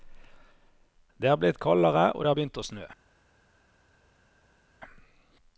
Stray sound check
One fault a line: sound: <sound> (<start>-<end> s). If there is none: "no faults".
no faults